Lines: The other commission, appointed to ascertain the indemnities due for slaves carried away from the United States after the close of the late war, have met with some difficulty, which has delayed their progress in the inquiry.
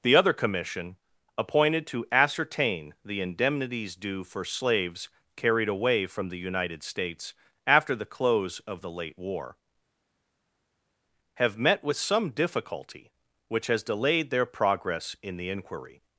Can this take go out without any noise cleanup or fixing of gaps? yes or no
yes